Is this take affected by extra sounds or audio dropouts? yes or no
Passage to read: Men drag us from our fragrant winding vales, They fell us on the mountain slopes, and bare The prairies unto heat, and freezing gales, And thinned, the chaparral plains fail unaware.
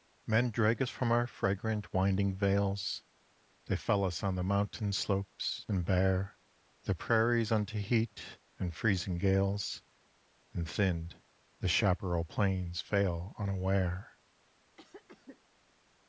yes